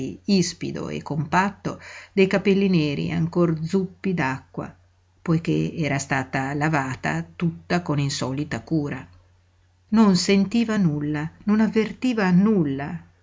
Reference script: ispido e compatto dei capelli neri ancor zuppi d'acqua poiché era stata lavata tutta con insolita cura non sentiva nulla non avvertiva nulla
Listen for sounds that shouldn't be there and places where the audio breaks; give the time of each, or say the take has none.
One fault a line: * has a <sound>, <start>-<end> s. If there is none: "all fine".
all fine